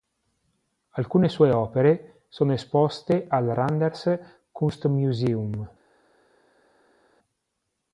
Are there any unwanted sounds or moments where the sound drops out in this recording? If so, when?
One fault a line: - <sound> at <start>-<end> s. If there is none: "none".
none